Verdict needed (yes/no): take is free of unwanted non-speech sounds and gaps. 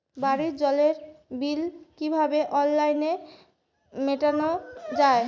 yes